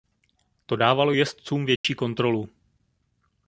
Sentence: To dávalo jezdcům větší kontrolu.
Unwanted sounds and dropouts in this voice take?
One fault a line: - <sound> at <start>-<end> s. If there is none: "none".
- dropout at 1.8-1.8 s